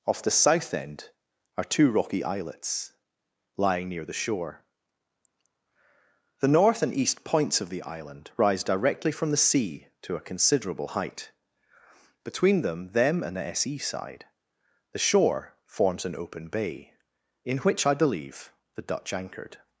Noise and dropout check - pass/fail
pass